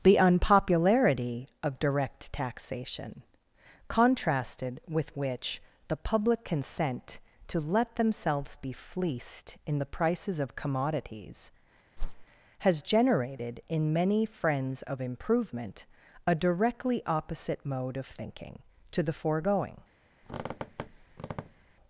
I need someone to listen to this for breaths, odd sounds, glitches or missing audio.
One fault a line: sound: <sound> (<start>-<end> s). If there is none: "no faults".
sound: whoosh (12.0-12.3 s)
sound: squeak (20.2-21.7 s)